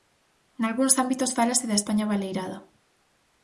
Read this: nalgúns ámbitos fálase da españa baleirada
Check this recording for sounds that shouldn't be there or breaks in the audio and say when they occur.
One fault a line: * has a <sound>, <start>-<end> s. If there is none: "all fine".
all fine